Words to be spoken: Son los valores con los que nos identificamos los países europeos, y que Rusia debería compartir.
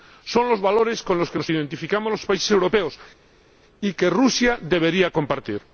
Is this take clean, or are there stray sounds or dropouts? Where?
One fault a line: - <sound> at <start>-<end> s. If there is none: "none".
none